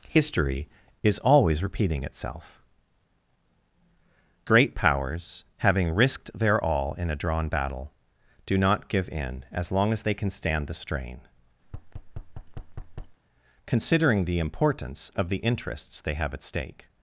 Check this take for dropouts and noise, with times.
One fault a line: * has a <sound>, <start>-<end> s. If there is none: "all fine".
* has a thud, 11.6-13.2 s